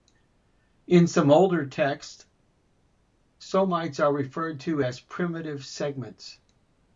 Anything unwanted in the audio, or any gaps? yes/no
no